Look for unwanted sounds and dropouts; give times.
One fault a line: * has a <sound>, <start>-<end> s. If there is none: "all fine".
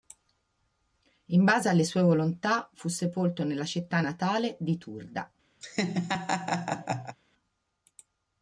* has a laugh, 5.6-7.2 s